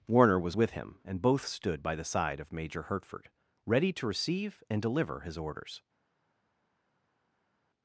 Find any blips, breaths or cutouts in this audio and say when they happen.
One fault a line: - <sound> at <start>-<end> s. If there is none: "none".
none